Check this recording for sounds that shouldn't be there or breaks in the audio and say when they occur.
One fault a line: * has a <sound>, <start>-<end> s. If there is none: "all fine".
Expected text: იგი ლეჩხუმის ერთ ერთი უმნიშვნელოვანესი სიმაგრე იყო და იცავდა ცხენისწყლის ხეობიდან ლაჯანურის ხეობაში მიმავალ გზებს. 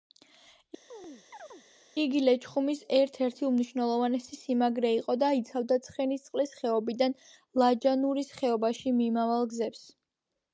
* has a chirp, 0.9-1.6 s